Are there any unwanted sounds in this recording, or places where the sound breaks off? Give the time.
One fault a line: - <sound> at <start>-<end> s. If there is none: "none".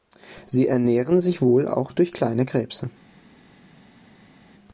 none